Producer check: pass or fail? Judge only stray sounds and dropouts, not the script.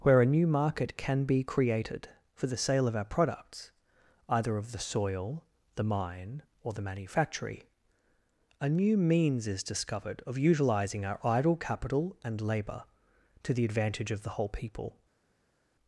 pass